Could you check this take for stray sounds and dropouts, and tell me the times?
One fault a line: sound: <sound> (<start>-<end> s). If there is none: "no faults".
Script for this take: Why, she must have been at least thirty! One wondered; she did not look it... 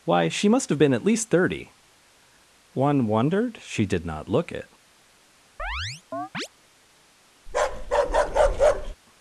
sound: chirp (5.6-6.5 s)
sound: bark (7.5-9.0 s)